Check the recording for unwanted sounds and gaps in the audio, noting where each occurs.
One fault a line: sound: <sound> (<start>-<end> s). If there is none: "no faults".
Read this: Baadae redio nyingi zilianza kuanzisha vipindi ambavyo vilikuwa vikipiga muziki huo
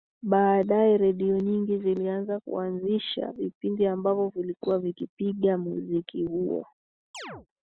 sound: chirp (7.1-7.5 s)